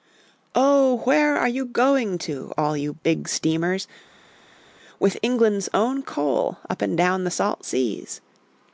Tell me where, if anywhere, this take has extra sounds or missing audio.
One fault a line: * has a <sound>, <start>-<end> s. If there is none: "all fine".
all fine